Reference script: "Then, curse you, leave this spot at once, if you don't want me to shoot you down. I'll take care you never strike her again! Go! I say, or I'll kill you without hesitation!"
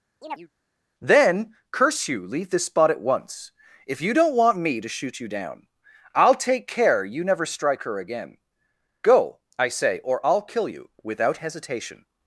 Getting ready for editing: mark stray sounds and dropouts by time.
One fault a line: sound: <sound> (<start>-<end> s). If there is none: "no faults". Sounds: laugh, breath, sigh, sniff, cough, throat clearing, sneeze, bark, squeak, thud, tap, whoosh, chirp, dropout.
sound: chirp (0.2-0.5 s)